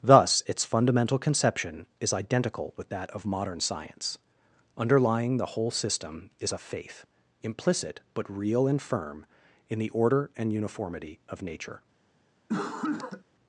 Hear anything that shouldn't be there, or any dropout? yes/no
yes